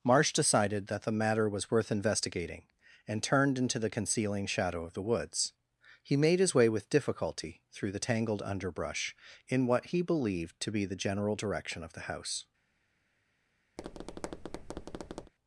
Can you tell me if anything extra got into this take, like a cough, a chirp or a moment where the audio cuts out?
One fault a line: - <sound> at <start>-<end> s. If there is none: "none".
- tap at 13.8-15.3 s